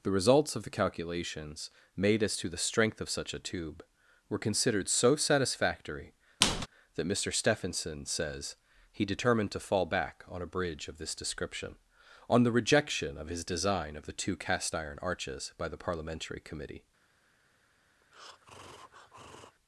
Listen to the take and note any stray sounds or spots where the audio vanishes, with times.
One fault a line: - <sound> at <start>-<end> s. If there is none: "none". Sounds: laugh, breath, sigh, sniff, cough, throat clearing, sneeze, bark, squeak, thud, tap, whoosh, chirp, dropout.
- squeak at 6.4-6.7 s
- breath at 18.0-19.6 s